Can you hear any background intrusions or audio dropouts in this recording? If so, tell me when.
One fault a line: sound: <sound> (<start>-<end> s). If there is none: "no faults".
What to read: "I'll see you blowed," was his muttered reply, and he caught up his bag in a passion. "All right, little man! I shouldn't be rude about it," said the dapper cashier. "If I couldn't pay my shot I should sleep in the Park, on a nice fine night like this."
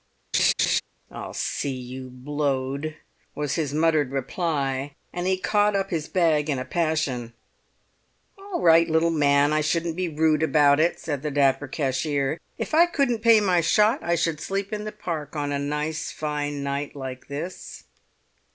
sound: laugh (0.3-0.8 s)